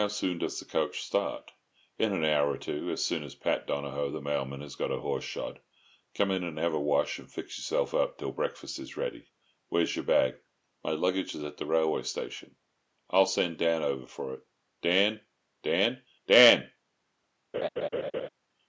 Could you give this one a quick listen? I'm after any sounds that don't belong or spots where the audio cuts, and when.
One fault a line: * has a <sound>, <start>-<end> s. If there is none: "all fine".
* has a laugh, 17.5-18.3 s